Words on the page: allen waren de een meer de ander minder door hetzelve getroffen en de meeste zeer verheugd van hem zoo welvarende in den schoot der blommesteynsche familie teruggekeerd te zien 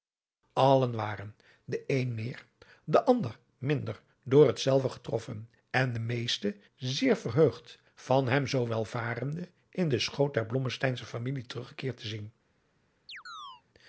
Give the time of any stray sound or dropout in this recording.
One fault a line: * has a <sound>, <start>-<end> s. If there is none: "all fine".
* has a chirp, 13.1-13.6 s